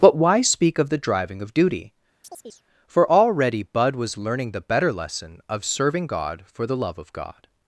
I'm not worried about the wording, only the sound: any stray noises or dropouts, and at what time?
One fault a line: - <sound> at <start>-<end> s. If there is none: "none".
- chirp at 2.2-2.6 s